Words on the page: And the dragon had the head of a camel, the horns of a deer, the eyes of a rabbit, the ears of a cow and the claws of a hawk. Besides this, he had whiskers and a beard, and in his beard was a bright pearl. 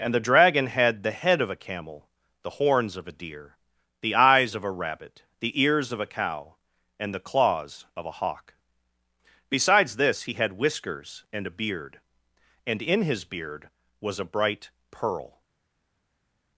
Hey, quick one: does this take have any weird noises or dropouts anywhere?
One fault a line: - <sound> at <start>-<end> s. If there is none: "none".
none